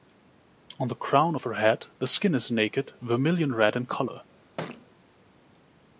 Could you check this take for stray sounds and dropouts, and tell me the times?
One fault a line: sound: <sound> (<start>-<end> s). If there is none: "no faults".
sound: thud (4.6-4.9 s)